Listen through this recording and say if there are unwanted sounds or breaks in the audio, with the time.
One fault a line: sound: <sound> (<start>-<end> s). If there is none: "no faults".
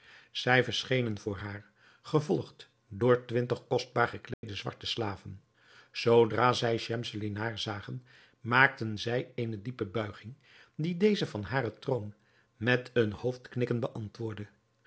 sound: dropout (4.3-4.4 s)